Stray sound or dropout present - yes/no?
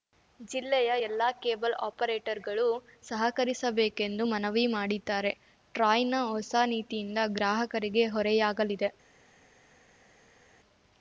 no